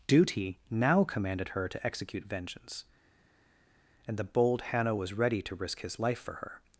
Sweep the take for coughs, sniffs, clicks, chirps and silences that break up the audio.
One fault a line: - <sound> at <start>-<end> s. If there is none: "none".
none